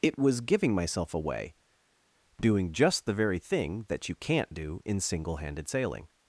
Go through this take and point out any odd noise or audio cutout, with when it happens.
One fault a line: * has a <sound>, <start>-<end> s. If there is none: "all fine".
all fine